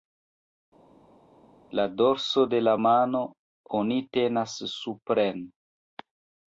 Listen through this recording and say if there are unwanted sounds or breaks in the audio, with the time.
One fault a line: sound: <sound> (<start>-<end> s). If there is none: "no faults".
no faults